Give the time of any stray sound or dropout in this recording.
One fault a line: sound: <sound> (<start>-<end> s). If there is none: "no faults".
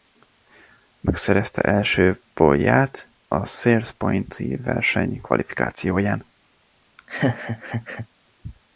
sound: laugh (7.0-8.1 s)